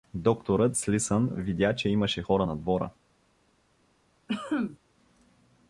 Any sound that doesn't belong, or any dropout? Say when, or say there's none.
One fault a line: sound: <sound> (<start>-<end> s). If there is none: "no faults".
sound: cough (4.3-4.8 s)